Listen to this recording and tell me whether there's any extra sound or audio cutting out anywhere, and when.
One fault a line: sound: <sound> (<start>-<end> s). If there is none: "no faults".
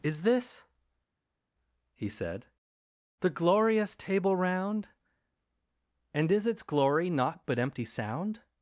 no faults